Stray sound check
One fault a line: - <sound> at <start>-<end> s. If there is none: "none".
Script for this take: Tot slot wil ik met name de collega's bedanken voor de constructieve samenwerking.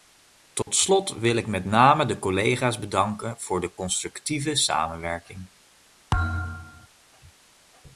- dropout at 0.6-0.7 s
- thud at 6.1-6.9 s